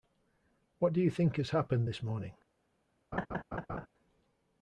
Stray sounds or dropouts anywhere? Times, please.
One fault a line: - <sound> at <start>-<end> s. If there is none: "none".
- laugh at 3.1-3.9 s